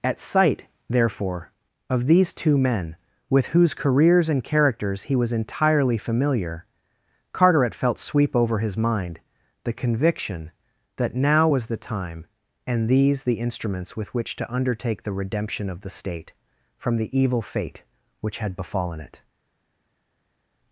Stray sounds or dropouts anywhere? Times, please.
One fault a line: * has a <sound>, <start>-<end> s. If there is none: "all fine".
all fine